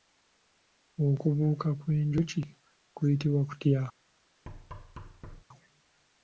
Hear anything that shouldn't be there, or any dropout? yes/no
yes